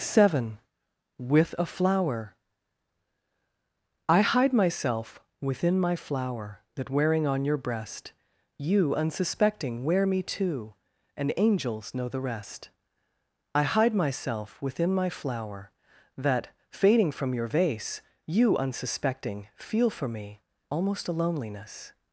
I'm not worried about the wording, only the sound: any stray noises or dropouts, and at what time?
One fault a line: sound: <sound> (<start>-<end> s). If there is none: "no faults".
no faults